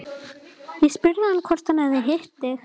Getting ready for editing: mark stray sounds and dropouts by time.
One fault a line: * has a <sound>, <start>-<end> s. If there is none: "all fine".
all fine